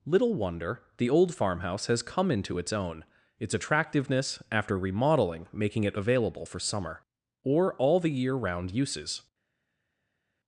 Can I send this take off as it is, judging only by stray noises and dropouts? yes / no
yes